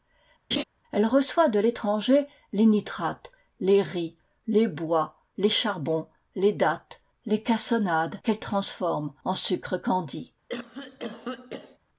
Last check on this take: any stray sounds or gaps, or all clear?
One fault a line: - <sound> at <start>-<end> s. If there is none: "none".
- laugh at 0.5-0.6 s
- cough at 10.5-11.8 s